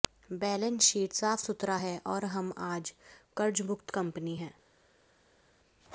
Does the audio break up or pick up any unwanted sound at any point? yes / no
no